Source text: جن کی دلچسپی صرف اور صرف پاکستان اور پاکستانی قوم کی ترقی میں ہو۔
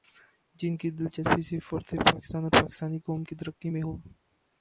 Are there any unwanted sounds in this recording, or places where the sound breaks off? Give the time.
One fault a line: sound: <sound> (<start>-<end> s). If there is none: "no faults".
no faults